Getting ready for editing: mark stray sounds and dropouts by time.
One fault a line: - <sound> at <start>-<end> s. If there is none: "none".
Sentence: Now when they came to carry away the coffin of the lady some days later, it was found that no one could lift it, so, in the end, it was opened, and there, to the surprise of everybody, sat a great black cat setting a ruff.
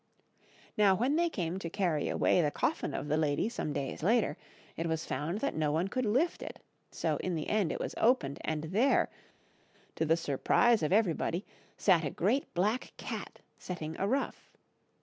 none